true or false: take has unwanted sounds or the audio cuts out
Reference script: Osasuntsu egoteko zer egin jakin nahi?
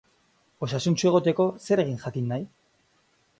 false